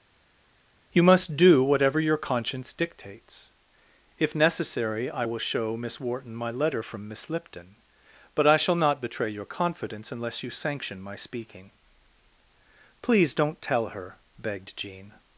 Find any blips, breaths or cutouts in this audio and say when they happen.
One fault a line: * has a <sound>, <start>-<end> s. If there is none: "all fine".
all fine